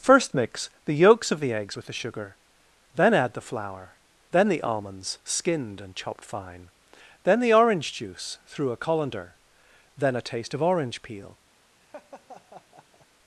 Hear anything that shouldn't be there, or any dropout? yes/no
yes